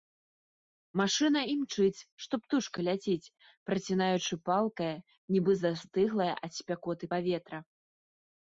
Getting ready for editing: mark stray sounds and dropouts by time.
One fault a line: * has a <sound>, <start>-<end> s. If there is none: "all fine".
all fine